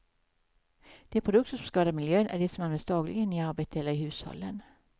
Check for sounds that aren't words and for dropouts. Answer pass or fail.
pass